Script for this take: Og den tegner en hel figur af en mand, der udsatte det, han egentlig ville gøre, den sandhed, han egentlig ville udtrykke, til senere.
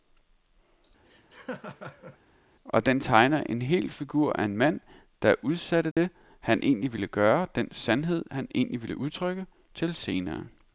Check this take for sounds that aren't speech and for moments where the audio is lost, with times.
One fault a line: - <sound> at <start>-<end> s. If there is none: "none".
- laugh at 1.0-2.2 s
- dropout at 5.9-6.0 s